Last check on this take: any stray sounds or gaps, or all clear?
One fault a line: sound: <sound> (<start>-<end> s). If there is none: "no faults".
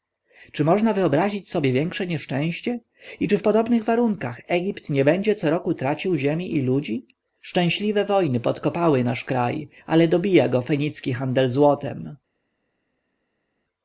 no faults